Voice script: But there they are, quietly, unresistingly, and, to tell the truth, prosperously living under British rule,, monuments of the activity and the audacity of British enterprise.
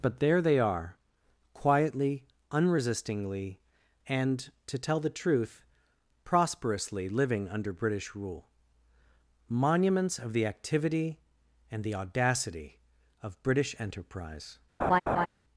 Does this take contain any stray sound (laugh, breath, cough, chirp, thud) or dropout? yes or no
yes